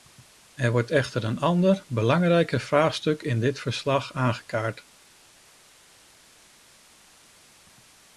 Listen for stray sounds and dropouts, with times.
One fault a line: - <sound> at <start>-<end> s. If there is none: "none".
none